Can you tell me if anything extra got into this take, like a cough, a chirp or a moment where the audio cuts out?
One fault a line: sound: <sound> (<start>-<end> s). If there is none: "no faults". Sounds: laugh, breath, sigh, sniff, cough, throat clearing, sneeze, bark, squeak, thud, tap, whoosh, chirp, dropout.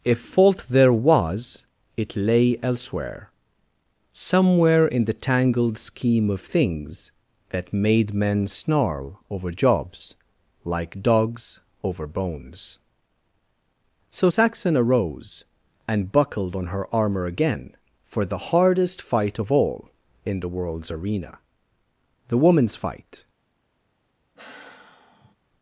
sound: sigh (24.4-25.4 s)